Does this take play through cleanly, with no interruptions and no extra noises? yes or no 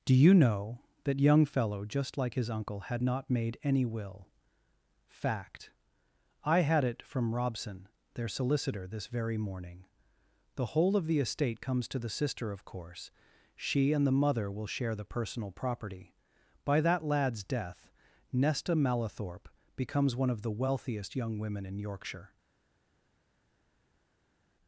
yes